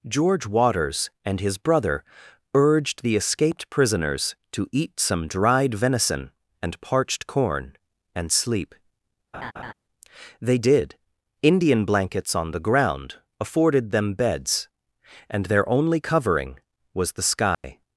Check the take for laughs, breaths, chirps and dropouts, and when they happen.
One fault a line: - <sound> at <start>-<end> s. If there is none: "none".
- laugh at 9.3-9.7 s
- dropout at 17.5-17.6 s